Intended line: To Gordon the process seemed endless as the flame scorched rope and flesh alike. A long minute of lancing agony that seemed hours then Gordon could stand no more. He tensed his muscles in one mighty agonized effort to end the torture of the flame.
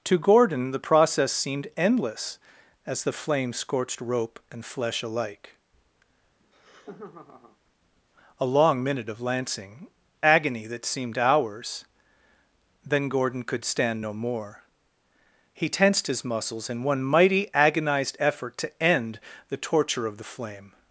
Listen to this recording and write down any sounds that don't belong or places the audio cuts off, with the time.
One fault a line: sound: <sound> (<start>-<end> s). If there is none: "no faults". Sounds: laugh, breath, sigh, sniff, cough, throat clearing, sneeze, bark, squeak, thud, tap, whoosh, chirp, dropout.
sound: laugh (6.4-7.6 s)